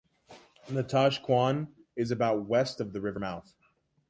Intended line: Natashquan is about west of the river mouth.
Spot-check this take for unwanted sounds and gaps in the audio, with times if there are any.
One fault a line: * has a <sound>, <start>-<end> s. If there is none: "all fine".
all fine